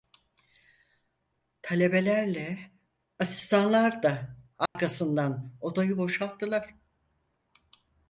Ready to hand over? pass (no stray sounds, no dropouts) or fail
fail